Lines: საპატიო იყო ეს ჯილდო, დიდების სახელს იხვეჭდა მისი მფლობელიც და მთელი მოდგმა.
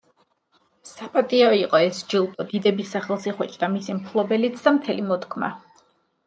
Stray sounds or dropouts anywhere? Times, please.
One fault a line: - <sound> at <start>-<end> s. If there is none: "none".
none